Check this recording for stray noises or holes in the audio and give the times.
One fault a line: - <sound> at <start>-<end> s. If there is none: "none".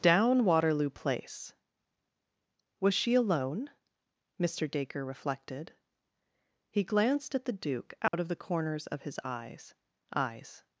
- dropout at 8.1-8.1 s